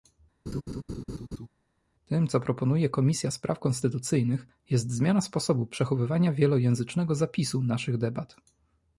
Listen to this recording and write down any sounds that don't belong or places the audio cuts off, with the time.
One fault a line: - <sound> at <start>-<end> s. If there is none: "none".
- laugh at 0.5-1.5 s